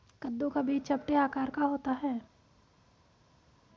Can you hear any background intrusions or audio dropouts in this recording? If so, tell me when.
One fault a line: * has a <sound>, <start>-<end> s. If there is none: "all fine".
all fine